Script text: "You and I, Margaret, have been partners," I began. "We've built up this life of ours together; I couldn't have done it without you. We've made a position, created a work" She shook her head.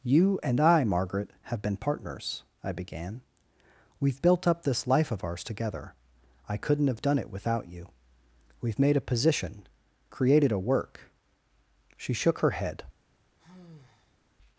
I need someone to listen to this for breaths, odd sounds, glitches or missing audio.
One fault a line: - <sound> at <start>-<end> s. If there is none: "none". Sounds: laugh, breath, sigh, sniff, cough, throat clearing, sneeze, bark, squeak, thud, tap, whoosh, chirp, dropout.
- sigh at 13.4-14.2 s